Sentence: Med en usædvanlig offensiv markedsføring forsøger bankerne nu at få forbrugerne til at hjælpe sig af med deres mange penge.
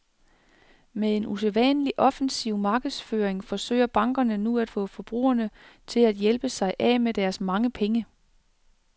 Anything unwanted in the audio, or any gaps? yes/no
no